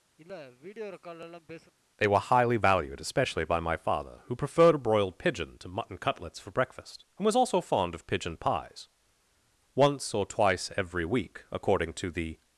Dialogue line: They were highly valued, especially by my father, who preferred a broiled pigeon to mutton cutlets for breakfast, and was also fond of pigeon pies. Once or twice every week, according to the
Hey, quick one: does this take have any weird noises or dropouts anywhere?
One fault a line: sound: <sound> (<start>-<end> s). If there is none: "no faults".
sound: sniff (0.2-1.7 s)